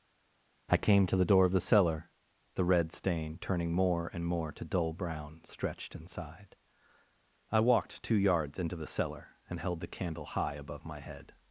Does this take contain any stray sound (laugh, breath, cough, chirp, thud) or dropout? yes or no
no